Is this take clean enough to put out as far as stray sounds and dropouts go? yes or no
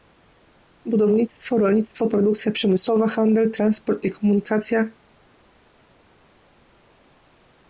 yes